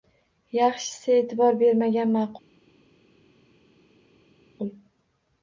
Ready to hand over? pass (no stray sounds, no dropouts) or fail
pass